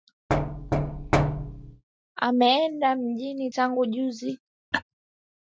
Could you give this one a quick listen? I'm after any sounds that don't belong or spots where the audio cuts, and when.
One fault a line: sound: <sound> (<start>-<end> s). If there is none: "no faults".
sound: thud (0.3-1.8 s)
sound: laugh (4.7-4.8 s)